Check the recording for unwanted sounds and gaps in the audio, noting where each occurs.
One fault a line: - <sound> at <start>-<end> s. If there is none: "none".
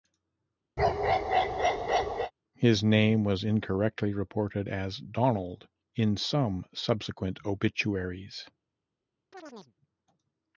- bark at 0.8-2.3 s
- chirp at 9.3-9.7 s